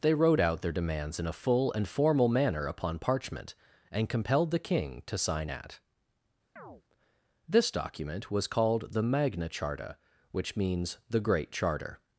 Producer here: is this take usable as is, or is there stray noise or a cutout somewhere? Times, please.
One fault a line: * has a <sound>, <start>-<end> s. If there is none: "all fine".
* has a chirp, 6.6-6.8 s